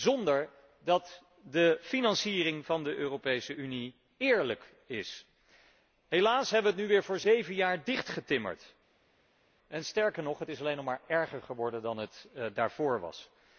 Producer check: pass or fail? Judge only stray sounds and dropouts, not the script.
pass